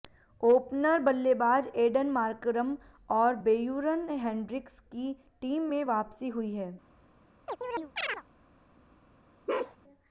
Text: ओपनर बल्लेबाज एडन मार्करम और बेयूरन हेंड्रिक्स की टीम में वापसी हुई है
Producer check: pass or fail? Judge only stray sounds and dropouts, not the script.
fail